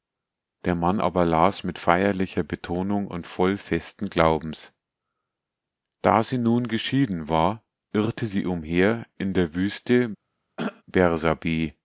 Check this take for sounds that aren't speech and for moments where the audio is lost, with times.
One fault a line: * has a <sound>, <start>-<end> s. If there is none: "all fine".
* has a throat clearing, 10.6-10.8 s